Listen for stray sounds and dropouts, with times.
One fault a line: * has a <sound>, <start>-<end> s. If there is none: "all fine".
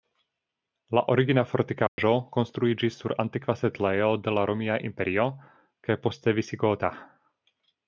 * has a dropout, 1.9-2.0 s